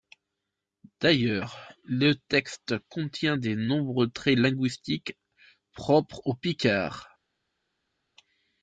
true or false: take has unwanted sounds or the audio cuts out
false